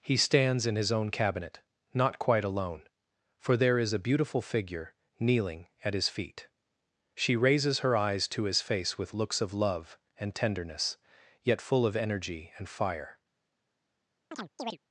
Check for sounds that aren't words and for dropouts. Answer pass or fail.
fail